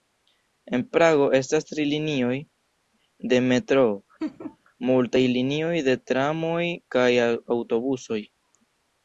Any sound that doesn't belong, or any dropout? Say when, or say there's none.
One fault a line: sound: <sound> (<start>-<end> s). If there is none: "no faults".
sound: laugh (4.2-4.6 s)